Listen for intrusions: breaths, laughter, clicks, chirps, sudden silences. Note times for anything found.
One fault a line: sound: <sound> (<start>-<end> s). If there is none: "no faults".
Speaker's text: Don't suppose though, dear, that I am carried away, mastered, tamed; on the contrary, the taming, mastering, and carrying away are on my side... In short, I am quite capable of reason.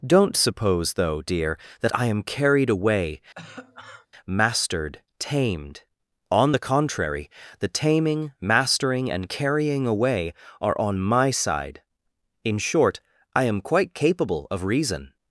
sound: cough (3.3-4.1 s)